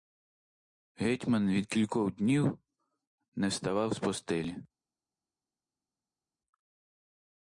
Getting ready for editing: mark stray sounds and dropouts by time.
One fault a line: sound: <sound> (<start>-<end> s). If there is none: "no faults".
no faults